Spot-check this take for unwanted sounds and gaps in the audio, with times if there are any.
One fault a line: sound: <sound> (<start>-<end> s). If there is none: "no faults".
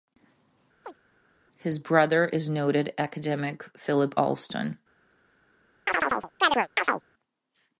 sound: chirp (0.8-1.0 s)
sound: chirp (5.9-7.0 s)